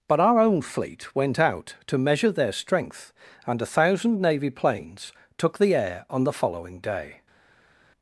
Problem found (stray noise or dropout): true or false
false